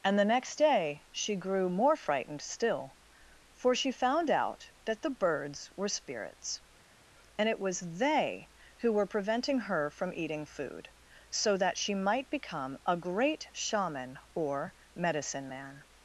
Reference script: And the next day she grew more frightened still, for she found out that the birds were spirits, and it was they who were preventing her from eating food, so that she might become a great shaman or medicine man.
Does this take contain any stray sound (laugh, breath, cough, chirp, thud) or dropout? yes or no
no